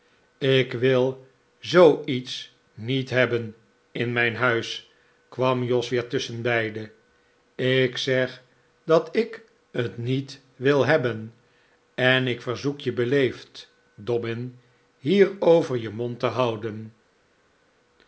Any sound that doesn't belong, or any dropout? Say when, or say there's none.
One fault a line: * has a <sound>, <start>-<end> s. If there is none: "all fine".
all fine